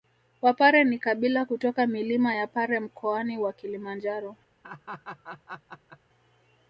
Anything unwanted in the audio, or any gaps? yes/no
yes